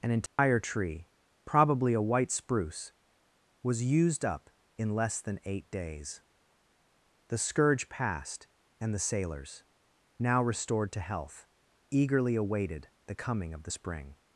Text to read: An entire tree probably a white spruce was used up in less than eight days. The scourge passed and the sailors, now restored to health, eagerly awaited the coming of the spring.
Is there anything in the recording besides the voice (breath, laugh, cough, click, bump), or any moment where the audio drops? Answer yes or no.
yes